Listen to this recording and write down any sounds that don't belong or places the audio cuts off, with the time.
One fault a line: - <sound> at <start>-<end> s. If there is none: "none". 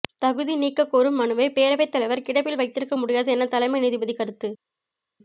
none